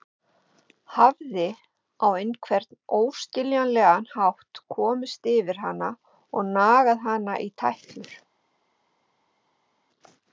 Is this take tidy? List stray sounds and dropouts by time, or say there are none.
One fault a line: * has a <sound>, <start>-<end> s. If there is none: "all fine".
all fine